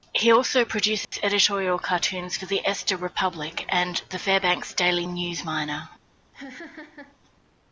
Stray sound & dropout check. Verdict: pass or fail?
fail